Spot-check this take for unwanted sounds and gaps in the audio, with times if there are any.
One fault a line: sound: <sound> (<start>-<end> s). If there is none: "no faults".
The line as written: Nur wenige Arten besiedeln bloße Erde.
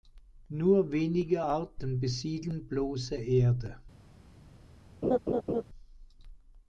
sound: laugh (5.0-5.6 s)